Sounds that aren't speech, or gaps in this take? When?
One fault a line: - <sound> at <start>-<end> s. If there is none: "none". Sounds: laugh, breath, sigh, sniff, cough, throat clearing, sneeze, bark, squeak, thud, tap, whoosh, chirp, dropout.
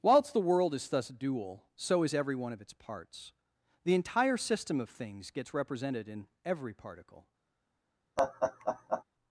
- laugh at 8.2-9.0 s